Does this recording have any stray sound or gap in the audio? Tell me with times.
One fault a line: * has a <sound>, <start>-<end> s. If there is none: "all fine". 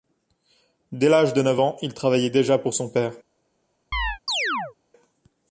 * has a chirp, 3.9-4.7 s